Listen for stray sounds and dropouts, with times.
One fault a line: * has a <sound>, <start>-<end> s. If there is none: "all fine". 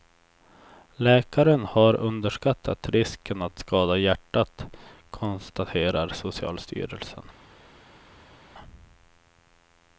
all fine